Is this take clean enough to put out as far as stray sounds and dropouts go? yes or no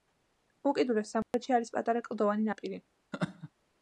no